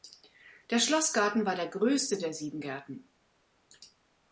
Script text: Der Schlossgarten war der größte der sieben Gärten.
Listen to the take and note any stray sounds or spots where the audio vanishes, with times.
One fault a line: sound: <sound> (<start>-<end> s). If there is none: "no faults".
no faults